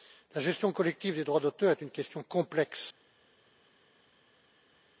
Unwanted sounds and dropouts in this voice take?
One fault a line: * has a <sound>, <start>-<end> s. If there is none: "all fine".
all fine